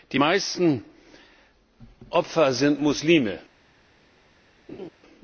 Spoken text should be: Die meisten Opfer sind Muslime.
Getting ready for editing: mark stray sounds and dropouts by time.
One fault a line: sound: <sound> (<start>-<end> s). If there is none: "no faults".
sound: laugh (4.7-4.9 s)